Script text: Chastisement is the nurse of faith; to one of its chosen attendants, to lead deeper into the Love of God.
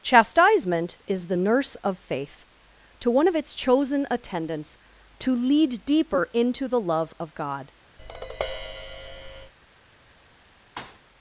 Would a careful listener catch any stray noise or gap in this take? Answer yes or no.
yes